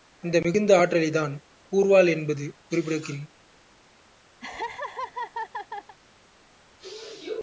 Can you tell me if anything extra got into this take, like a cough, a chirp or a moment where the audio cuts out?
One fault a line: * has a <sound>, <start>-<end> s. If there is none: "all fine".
* has a laugh, 4.4-6.0 s